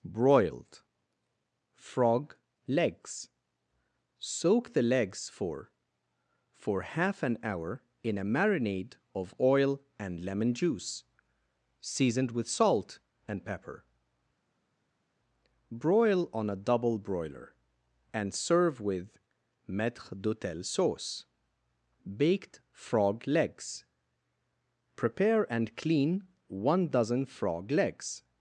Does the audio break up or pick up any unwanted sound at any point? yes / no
no